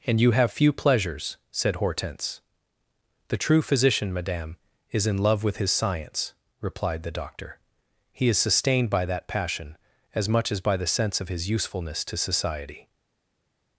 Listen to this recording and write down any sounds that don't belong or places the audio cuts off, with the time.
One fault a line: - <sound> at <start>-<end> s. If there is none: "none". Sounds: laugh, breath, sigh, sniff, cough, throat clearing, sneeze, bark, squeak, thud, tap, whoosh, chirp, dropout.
none